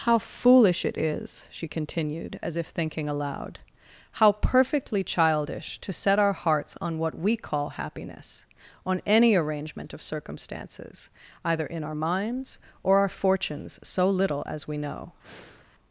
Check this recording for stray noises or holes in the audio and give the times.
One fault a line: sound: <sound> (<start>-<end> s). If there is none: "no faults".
sound: breath (15.2-15.7 s)